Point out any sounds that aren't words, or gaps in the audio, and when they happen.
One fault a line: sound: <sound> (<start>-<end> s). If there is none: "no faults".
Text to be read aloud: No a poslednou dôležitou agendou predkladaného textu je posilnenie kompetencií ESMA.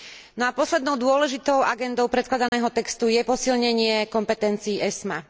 sound: dropout (2.5-2.5 s)